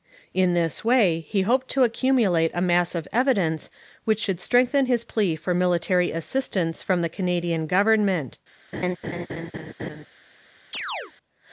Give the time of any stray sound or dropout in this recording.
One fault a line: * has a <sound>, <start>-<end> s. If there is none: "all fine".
* has a laugh, 8.7-10.1 s
* has a chirp, 10.7-11.1 s